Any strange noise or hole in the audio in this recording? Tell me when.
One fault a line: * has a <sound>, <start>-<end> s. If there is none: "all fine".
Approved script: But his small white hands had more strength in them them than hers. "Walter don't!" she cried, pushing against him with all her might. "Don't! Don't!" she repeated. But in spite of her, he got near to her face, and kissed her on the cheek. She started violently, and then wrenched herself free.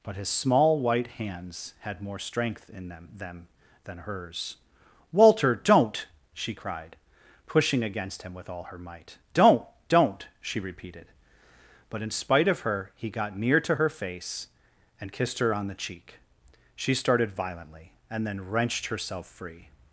all fine